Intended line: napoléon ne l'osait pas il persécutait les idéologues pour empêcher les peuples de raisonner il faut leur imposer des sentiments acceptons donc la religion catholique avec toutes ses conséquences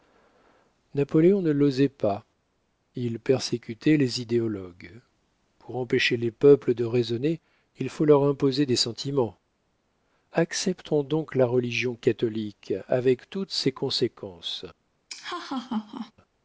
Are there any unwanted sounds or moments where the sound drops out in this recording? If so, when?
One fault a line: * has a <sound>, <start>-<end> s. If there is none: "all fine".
* has a laugh, 15.1-16.1 s